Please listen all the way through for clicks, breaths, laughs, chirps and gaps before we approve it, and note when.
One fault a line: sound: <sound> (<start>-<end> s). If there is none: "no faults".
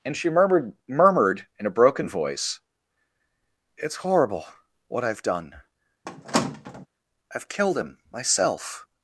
sound: squeak (6.1-6.9 s)